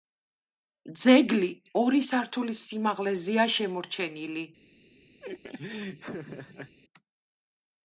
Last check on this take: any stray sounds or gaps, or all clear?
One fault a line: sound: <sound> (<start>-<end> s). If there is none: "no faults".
sound: laugh (5.2-6.8 s)